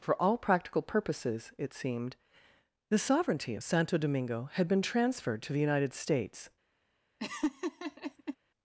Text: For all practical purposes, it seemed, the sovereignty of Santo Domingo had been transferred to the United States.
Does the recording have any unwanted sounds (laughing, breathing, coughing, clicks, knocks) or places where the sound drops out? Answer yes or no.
yes